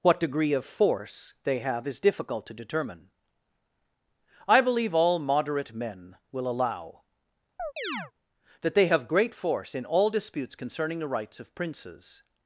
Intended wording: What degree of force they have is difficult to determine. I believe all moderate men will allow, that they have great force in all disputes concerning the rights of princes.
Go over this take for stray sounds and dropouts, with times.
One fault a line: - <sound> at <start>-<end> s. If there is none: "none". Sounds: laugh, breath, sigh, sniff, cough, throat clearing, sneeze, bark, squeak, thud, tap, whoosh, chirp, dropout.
- chirp at 7.6-8.1 s